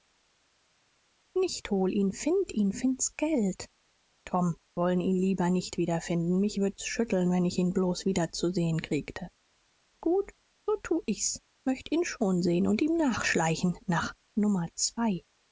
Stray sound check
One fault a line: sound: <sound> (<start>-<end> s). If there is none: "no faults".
no faults